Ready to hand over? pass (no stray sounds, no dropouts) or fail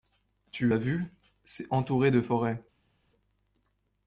pass